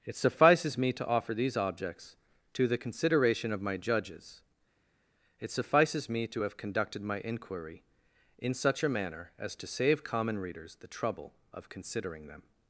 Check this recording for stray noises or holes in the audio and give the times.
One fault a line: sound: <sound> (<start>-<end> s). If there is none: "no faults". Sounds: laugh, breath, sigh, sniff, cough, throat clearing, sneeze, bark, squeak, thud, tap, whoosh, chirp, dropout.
no faults